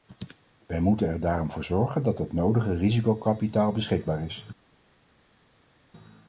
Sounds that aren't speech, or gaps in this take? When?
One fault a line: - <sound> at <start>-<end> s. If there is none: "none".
none